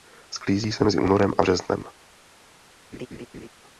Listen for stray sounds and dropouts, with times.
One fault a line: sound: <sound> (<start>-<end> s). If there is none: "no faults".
sound: laugh (2.9-3.5 s)